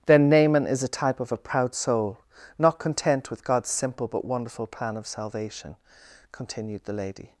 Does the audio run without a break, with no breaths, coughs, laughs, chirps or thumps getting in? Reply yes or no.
yes